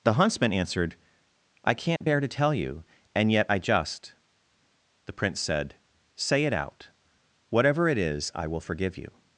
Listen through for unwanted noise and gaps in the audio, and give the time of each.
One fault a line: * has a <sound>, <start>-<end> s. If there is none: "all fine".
* has a dropout, 2.0-2.0 s